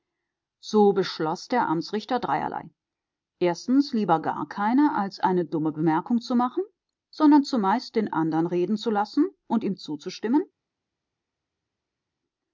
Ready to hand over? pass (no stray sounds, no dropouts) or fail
pass